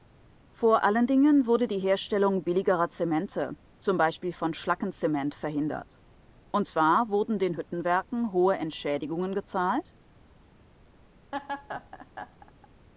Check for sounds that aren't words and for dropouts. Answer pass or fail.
fail